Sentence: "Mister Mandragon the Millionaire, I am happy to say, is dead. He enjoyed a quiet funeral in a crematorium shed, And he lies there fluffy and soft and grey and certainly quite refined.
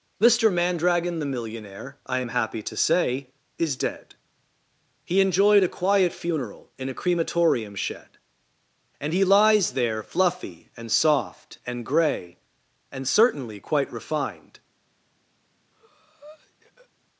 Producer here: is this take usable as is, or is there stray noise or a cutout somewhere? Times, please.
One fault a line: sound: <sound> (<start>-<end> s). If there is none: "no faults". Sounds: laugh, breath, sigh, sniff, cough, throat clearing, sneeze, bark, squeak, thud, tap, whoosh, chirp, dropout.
sound: breath (15.7-16.9 s)